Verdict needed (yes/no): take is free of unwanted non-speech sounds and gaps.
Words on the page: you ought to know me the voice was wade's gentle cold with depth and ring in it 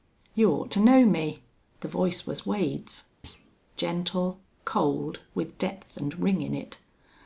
no